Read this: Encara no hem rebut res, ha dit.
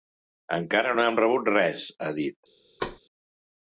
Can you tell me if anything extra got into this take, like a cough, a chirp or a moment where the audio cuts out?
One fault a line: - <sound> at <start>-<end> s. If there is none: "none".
- thud at 2.8-3.0 s